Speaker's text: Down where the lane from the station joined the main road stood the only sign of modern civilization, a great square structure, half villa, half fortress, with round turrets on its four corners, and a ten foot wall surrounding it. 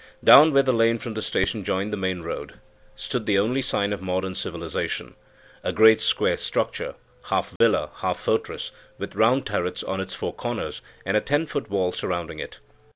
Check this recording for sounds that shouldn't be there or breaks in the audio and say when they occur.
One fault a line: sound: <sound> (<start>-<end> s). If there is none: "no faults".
sound: dropout (7.6-7.6 s)